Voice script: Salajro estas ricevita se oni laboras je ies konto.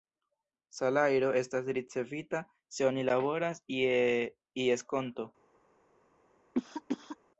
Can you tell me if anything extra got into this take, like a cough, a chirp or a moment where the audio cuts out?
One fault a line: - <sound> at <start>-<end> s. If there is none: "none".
- cough at 6.5-7.2 s